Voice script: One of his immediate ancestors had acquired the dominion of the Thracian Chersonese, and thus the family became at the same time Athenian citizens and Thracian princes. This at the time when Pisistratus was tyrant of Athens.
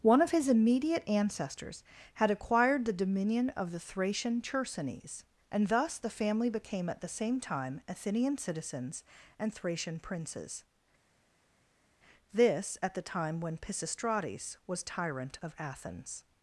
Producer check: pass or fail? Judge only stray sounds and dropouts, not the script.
pass